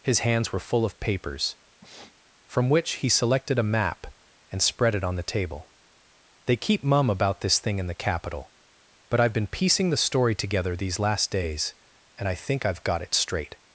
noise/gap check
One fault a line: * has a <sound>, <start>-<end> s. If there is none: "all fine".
* has a sniff, 1.8-2.1 s